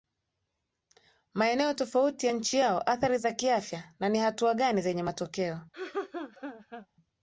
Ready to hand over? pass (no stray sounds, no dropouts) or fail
fail